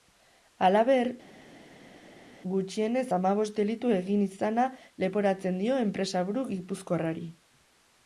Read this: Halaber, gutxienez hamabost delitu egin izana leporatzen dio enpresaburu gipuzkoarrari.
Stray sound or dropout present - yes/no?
no